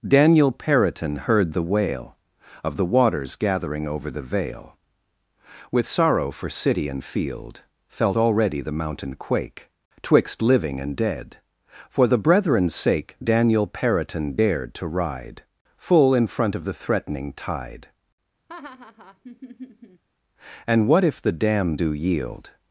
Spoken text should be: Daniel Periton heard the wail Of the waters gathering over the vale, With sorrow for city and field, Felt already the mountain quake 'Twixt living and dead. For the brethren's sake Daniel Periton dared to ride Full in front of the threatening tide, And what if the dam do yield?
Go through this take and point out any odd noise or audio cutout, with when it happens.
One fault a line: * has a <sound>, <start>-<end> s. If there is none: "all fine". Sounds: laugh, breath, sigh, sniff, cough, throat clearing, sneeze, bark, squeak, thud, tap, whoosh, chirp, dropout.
* has a laugh, 18.5-20.0 s